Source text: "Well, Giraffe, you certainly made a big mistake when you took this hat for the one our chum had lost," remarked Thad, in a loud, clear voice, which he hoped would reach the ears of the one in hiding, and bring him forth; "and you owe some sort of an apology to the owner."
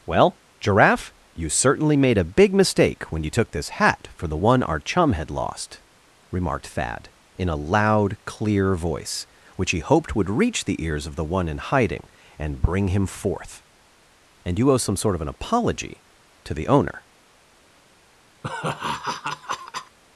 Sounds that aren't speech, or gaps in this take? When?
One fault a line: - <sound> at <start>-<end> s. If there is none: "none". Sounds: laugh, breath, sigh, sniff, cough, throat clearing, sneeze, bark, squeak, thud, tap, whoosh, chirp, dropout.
- laugh at 18.4-20.0 s